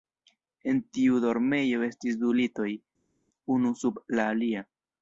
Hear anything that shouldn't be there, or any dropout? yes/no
no